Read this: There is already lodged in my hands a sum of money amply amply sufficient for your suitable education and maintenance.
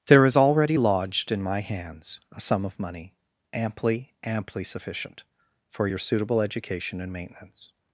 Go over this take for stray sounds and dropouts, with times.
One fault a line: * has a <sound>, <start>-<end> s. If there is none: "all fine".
all fine